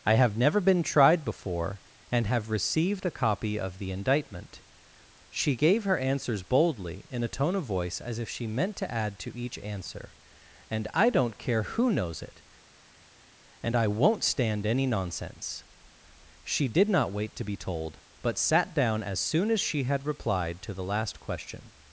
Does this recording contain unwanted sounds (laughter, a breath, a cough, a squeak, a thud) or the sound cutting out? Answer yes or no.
no